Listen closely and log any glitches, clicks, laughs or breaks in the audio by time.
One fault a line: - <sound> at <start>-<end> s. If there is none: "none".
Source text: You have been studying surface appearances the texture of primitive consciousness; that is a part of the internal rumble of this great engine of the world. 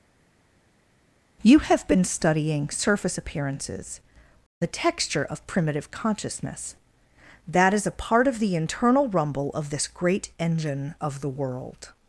none